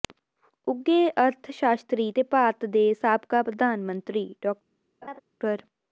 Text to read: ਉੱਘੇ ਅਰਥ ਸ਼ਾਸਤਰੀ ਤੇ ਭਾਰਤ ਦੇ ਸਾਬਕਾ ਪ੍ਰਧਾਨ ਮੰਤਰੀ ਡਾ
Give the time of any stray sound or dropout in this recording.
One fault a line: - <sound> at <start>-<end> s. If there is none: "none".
- laugh at 5.0-5.2 s